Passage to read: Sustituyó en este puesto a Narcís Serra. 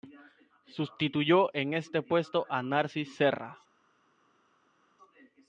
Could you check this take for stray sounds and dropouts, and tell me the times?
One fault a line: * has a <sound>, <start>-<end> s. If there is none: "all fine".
all fine